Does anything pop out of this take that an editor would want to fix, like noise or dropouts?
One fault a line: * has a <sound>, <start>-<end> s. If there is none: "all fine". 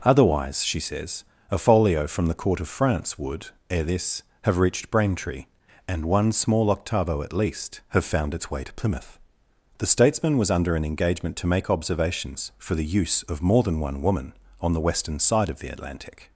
all fine